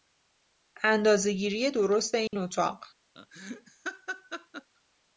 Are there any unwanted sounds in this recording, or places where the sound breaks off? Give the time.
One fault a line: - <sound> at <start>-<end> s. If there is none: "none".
- dropout at 2.3-2.3 s
- laugh at 3.2-4.7 s